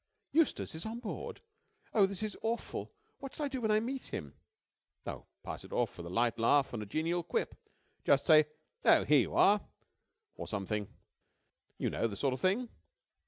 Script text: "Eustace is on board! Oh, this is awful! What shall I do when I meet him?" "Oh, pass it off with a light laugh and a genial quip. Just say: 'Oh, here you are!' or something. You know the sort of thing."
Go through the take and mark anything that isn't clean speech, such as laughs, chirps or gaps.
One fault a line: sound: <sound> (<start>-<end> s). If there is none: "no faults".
no faults